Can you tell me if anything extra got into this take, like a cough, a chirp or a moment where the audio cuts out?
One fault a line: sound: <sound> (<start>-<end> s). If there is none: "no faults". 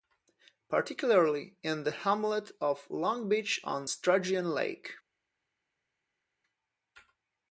no faults